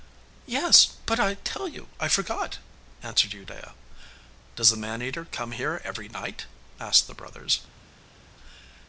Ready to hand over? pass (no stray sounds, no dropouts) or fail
pass